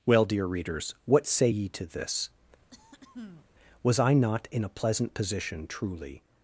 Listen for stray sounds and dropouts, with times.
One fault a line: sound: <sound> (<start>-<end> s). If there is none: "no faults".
sound: throat clearing (2.7-3.5 s)